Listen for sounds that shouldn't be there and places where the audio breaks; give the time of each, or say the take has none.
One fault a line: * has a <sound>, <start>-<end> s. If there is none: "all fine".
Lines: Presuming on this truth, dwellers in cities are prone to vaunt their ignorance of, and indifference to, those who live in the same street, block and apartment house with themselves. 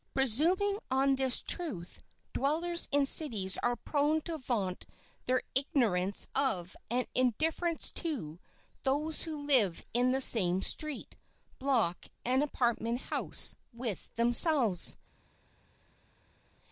all fine